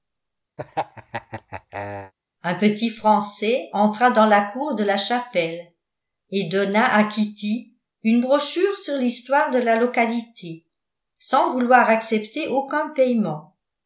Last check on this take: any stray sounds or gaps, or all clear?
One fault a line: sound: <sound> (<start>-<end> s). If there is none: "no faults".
sound: laugh (0.6-2.1 s)